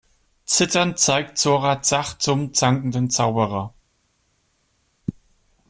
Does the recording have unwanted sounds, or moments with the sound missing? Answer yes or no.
no